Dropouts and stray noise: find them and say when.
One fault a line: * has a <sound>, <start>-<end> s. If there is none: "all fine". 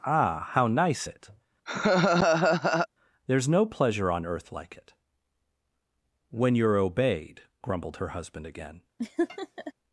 * has a laugh, 1.7-2.9 s
* has a laugh, 9.0-9.7 s